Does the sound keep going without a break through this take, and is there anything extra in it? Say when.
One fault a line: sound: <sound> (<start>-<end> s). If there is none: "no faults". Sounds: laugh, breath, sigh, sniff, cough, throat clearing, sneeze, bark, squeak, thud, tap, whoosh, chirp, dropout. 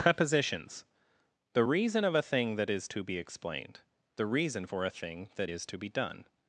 no faults